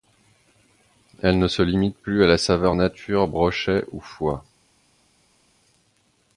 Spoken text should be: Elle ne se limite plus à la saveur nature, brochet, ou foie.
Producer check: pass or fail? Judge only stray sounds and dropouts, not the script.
pass